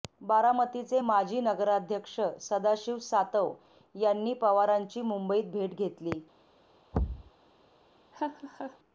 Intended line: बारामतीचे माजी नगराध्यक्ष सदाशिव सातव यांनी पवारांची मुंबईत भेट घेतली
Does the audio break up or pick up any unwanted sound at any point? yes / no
yes